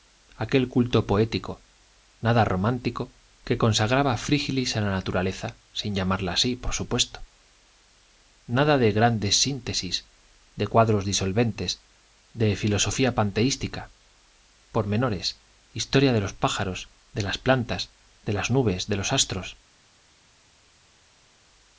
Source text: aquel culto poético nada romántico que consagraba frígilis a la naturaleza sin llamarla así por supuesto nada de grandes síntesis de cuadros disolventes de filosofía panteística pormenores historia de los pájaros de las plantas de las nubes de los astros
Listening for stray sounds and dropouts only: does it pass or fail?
pass